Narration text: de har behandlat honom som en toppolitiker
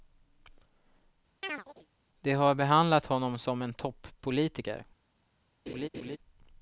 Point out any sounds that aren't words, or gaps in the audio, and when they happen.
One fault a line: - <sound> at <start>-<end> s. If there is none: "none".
- chirp at 1.4-1.9 s
- laugh at 5.7-6.2 s